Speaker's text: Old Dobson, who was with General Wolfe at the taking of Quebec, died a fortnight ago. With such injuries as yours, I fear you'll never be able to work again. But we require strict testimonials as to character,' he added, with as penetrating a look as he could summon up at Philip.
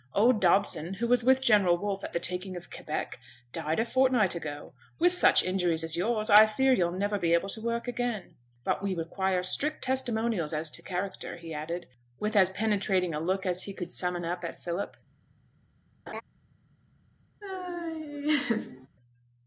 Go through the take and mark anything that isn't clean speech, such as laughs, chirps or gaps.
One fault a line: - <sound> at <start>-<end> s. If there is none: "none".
- laugh at 16.1-16.2 s
- laugh at 17.4-18.9 s